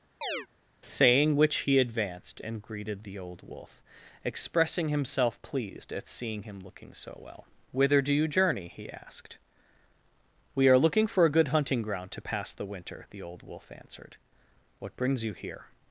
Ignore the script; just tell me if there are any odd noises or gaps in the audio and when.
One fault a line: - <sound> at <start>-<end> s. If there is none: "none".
- chirp at 0.2-0.5 s